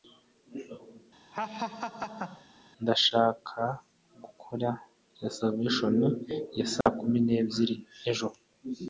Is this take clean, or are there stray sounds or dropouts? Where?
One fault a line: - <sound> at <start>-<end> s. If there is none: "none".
- laugh at 1.3-2.5 s
- dropout at 6.8-6.9 s